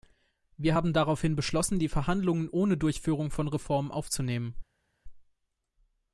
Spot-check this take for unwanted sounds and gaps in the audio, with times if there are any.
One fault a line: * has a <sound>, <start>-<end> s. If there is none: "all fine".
all fine